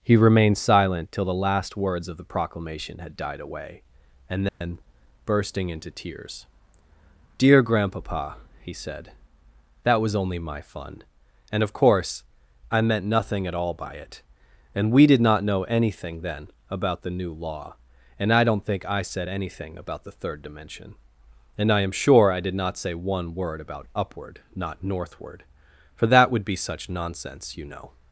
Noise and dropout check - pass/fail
fail